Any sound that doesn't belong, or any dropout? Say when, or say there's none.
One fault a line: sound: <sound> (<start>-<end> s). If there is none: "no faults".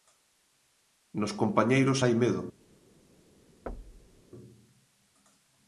sound: thud (3.7-4.2 s)